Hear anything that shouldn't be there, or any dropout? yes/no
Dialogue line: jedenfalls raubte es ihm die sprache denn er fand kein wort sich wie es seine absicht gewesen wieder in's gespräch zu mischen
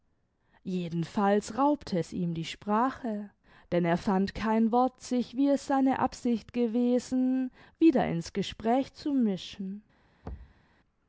yes